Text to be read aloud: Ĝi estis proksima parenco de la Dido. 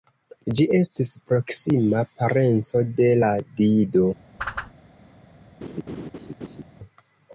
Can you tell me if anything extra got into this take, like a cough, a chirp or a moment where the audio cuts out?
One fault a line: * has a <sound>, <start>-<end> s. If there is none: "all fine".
* has a whoosh, 4.4-4.7 s
* has a laugh, 5.6-6.6 s